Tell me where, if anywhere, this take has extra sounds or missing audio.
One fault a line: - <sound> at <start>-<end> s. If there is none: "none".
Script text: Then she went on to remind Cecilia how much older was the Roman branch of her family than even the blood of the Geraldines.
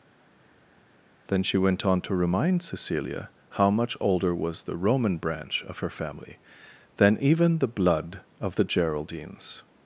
none